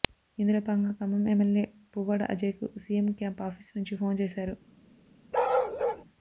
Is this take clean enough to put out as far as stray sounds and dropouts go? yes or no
no